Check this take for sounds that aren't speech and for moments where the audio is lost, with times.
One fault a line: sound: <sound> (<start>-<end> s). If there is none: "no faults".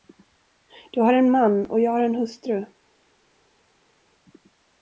no faults